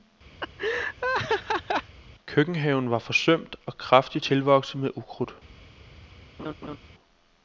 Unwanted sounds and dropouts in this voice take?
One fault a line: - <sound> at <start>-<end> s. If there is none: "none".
- laugh at 0.4-2.0 s
- laugh at 6.4-6.8 s